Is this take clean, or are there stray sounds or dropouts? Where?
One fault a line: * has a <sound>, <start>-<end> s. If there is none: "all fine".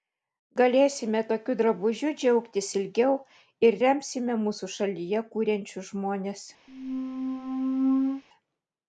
* has a squeak, 6.7-8.2 s